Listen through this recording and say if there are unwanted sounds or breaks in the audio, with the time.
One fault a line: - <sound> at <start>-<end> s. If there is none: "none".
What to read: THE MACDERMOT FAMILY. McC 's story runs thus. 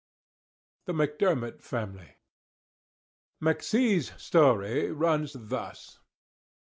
none